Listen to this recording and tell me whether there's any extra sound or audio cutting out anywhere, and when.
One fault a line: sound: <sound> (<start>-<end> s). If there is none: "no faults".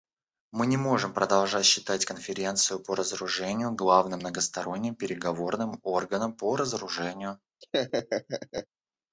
sound: laugh (7.6-8.7 s)